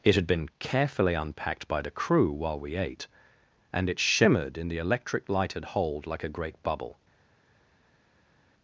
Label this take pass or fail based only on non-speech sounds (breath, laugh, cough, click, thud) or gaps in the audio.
pass